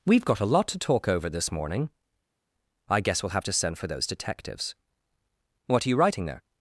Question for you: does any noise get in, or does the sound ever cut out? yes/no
no